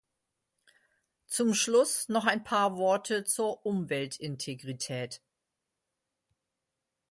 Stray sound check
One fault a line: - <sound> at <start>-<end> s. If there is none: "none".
none